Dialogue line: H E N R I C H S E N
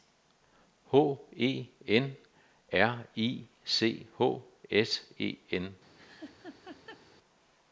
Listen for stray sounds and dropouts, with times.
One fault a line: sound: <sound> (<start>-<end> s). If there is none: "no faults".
sound: laugh (6.0-7.1 s)